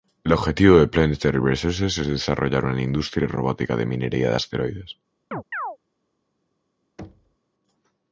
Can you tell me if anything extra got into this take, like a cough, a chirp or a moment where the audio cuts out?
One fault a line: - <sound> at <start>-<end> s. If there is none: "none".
- chirp at 5.3-5.8 s
- thud at 7.0-7.4 s